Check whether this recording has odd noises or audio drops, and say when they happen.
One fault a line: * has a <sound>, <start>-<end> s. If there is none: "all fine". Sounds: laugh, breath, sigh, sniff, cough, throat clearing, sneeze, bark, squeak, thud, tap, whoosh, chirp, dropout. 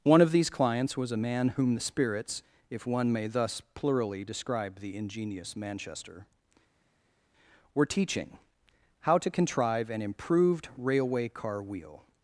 all fine